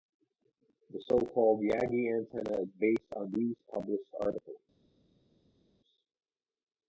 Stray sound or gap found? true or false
false